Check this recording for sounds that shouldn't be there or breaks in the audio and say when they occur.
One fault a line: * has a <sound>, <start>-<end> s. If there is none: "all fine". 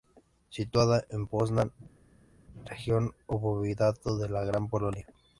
all fine